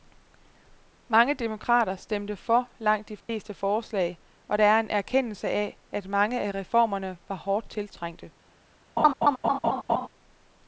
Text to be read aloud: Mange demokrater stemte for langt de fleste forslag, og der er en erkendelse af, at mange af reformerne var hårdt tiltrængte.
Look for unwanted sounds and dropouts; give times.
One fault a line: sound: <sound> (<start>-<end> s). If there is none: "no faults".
sound: dropout (3.2-3.3 s)
sound: laugh (9.0-10.1 s)